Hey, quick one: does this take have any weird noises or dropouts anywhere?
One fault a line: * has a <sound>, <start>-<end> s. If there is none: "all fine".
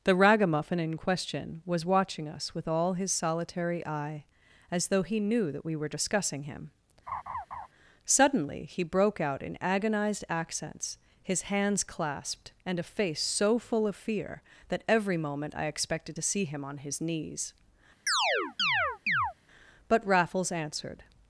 * has a laugh, 7.1-7.7 s
* has a chirp, 18.1-19.3 s